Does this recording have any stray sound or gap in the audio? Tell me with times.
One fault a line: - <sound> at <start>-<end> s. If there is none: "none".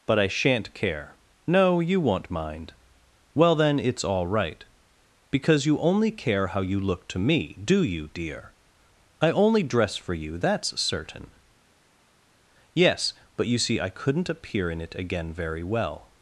none